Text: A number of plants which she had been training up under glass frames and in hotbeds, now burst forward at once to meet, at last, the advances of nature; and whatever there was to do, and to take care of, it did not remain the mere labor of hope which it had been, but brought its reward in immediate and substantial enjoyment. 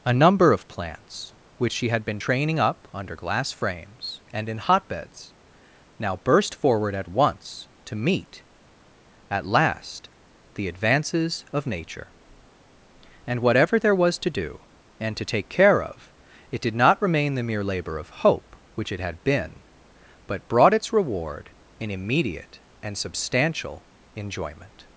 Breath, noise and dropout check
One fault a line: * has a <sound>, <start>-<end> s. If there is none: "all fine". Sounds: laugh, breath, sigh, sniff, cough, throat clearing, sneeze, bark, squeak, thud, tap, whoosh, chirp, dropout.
all fine